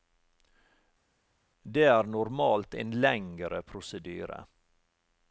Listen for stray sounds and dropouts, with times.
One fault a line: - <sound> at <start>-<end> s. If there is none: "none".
none